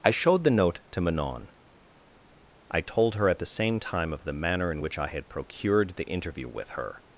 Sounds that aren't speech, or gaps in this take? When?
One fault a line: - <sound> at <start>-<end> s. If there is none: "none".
none